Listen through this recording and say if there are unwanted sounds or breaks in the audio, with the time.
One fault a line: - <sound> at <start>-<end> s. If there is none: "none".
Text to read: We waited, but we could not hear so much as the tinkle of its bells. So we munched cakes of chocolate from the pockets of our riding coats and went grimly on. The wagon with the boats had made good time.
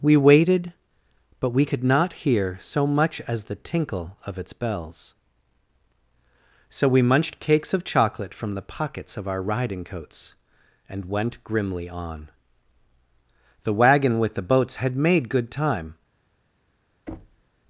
- thud at 17.1-17.4 s